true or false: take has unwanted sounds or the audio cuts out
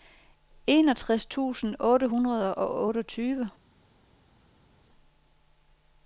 false